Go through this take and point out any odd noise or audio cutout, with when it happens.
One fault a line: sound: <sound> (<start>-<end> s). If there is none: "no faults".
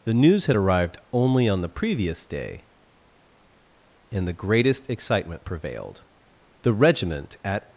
no faults